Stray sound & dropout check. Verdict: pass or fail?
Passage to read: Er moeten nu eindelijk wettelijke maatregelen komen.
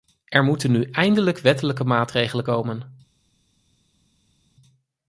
pass